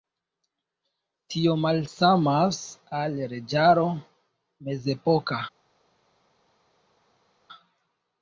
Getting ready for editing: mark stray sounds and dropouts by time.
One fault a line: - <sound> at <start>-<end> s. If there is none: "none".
none